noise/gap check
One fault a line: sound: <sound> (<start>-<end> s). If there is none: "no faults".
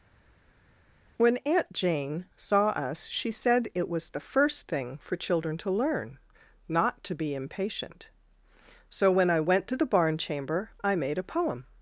no faults